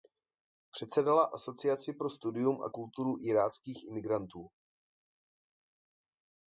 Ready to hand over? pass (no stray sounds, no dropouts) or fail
pass